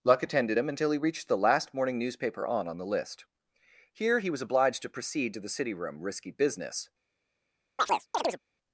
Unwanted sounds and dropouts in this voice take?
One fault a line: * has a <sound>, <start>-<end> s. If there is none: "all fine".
* has a chirp, 7.8-8.4 s